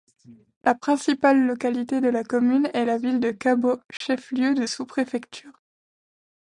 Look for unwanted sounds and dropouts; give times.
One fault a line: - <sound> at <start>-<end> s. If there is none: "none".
- dropout at 4.0-4.0 s